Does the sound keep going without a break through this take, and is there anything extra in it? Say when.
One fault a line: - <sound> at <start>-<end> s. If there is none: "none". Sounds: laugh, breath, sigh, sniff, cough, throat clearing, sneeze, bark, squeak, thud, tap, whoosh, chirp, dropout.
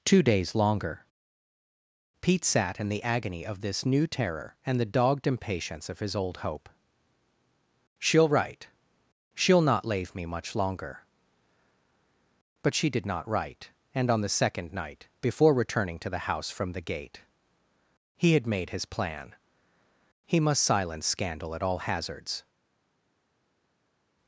none